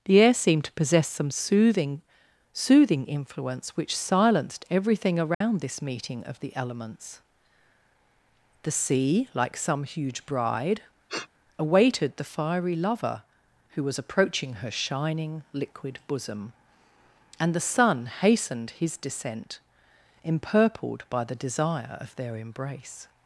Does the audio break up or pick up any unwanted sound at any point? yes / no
yes